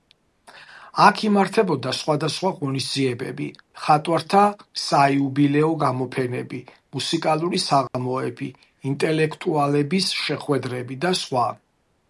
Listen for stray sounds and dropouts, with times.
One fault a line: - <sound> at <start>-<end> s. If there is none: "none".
- dropout at 7.9-7.9 s